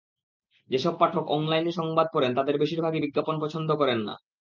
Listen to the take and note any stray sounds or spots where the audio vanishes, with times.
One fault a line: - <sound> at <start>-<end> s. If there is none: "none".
none